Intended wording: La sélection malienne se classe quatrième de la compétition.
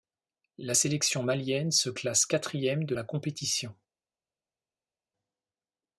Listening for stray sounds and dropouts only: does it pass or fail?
pass